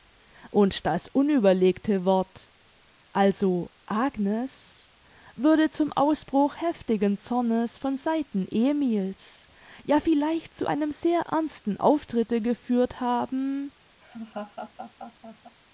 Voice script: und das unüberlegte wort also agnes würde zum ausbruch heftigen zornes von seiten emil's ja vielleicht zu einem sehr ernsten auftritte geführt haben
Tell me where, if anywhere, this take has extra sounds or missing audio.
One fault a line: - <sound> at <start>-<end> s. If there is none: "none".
- laugh at 14.0-15.6 s